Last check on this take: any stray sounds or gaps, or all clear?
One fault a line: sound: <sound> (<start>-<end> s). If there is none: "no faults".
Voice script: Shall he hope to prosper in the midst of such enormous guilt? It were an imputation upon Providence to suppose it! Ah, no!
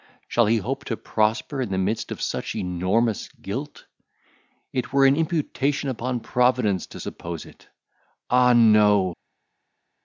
no faults